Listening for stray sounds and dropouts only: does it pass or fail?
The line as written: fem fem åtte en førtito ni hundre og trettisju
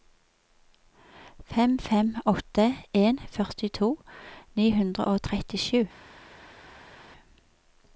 pass